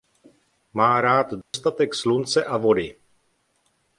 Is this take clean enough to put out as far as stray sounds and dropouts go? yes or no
no